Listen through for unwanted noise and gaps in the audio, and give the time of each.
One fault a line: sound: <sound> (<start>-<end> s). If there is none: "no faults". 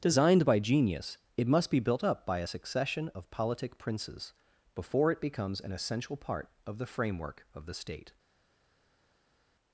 no faults